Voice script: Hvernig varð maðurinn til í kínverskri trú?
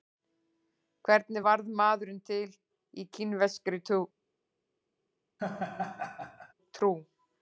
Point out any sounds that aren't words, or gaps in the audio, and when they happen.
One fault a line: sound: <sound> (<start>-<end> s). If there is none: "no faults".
sound: laugh (5.4-6.5 s)